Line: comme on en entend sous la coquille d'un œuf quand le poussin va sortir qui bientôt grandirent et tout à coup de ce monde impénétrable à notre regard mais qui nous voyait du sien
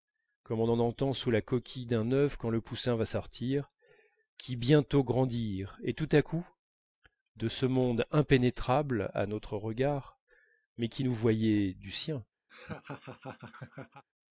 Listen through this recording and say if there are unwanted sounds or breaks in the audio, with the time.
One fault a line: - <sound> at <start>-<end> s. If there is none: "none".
- laugh at 12.5-14.0 s